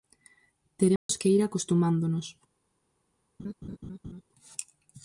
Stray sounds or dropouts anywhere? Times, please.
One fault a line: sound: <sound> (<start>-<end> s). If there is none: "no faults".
sound: dropout (1.0-1.1 s)
sound: laugh (3.4-4.2 s)